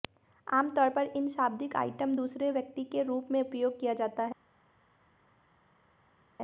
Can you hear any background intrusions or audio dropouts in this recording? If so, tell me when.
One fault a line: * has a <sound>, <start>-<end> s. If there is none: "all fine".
all fine